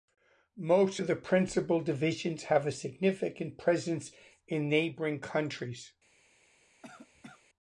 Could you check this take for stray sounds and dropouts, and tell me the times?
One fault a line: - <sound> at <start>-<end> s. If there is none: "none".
- cough at 6.8-7.5 s